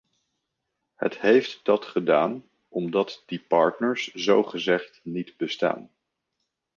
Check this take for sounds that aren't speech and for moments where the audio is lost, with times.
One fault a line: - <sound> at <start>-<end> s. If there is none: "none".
none